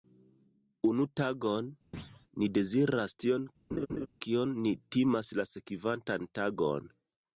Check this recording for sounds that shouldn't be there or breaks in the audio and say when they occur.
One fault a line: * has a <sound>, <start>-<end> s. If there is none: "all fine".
* has a thud, 1.9-2.3 s
* has a laugh, 3.7-4.1 s